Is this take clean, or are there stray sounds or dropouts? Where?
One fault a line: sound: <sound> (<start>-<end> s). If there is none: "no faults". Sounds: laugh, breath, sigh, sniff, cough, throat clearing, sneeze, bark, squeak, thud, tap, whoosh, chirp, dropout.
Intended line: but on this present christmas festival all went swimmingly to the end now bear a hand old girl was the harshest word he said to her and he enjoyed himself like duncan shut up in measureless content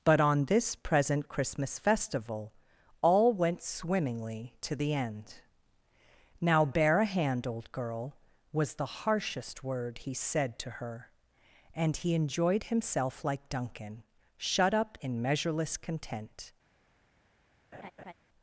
sound: laugh (17.7-18.1 s)